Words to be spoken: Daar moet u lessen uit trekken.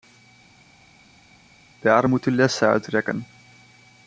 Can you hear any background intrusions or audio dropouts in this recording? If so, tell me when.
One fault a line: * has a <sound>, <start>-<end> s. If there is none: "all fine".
all fine